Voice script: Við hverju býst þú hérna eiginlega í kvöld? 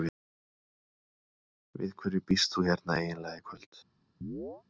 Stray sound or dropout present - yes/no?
yes